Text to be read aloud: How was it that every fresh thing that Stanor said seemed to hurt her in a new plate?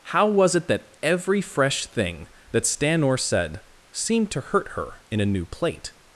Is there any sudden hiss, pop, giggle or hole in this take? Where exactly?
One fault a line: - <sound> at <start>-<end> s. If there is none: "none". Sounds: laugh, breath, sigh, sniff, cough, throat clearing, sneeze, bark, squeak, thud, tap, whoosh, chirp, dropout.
none